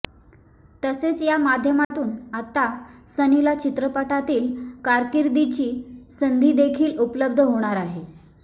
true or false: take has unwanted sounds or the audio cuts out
true